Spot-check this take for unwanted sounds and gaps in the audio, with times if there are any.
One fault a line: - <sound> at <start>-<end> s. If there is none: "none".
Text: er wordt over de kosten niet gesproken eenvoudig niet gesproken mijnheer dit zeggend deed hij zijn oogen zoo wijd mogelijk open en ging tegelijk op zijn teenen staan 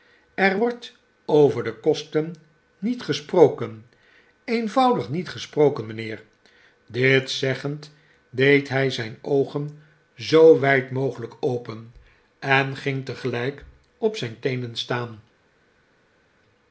none